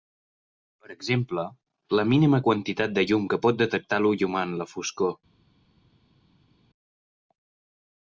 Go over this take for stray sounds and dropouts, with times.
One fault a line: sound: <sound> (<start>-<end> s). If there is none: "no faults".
no faults